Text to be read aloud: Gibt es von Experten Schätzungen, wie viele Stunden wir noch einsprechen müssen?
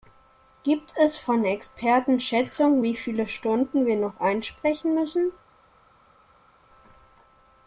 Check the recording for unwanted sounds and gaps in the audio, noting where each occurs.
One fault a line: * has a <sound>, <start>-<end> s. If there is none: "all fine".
all fine